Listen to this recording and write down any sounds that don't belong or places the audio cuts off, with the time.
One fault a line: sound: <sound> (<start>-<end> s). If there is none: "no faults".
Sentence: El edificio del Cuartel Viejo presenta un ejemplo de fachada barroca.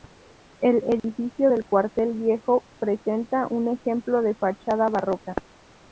sound: dropout (1.0-1.0 s)